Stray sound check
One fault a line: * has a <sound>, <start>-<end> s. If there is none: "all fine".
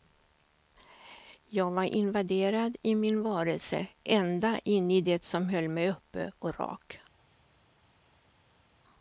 all fine